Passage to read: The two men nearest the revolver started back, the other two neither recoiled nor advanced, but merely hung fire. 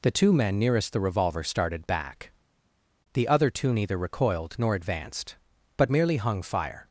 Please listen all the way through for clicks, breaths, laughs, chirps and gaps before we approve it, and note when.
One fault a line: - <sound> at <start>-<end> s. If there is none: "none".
none